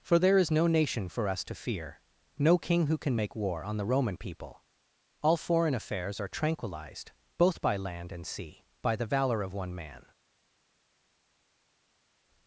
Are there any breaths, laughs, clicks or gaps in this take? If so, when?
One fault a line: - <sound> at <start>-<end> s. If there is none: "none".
none